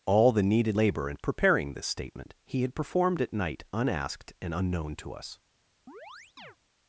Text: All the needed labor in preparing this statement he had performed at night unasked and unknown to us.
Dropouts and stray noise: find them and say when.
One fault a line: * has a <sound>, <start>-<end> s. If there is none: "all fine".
* has a chirp, 5.9-6.6 s